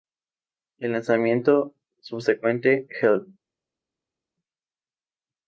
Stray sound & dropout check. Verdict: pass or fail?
pass